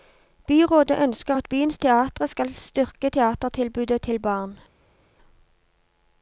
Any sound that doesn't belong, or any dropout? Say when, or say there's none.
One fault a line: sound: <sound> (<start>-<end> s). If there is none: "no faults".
no faults